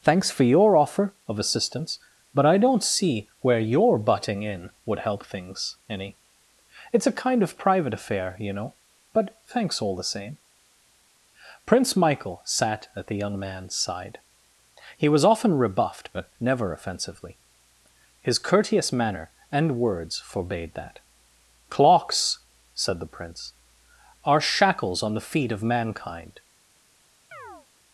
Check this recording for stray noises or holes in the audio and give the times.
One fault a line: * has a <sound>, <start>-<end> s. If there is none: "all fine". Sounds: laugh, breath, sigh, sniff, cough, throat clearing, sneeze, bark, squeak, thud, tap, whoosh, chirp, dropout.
* has a chirp, 27.3-27.7 s